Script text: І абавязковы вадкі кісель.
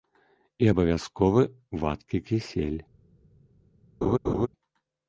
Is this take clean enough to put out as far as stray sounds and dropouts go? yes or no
no